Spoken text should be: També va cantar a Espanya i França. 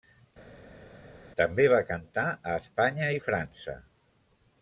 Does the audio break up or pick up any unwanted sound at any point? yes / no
no